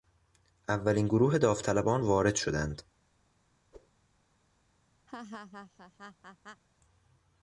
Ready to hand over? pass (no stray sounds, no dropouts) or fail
fail